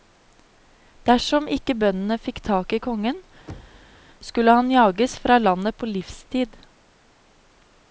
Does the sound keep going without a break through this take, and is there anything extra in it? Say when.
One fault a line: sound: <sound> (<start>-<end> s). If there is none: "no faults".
sound: thud (3.5-4.0 s)